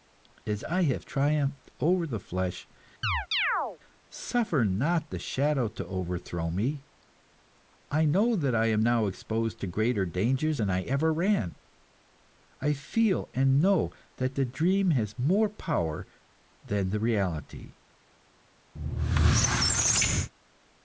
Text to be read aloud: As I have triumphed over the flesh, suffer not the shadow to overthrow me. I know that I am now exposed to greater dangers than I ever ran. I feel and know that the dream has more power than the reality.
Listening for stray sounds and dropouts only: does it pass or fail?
fail